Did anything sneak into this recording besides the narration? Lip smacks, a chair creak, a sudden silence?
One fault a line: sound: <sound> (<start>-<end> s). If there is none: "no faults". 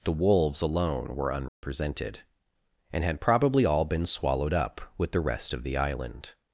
sound: dropout (1.5-1.6 s)